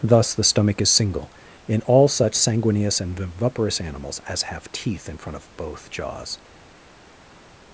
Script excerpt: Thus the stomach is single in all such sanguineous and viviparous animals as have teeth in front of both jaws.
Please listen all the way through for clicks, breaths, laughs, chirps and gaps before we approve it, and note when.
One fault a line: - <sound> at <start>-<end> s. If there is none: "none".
none